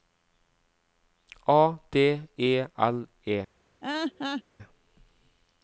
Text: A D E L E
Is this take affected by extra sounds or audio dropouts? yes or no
yes